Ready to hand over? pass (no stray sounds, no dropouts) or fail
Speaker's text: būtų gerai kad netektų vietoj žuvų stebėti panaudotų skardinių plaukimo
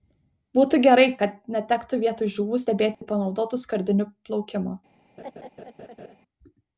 fail